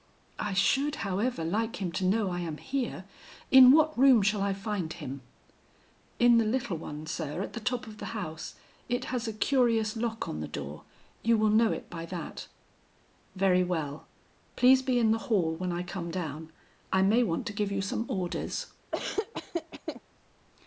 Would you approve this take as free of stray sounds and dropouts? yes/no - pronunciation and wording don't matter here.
no